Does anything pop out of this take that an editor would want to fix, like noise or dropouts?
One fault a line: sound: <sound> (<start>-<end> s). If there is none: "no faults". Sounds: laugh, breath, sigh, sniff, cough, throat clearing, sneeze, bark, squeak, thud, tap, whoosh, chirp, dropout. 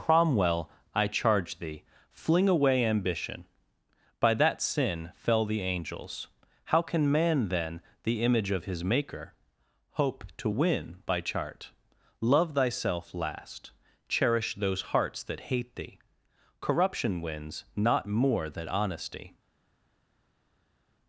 no faults